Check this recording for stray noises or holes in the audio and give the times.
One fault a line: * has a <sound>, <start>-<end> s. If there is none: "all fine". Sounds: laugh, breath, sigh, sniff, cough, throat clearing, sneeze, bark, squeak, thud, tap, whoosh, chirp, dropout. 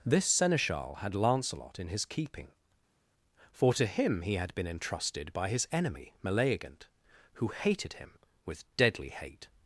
all fine